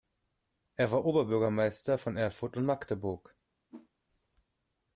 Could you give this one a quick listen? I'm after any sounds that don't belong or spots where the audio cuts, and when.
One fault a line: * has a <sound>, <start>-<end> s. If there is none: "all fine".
* has a whoosh, 3.7-3.9 s